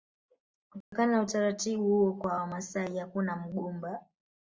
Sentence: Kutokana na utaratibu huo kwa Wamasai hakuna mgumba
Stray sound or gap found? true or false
true